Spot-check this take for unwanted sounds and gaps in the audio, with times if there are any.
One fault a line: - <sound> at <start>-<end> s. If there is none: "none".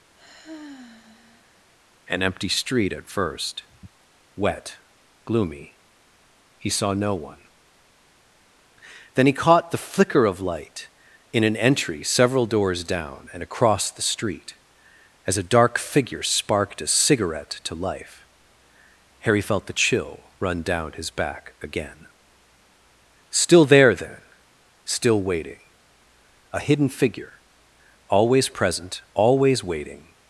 - sigh at 0.2-1.7 s